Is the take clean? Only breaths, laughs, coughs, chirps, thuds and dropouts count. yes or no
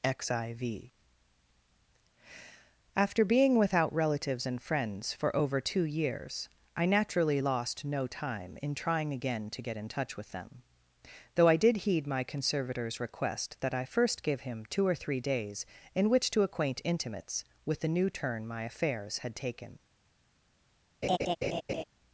no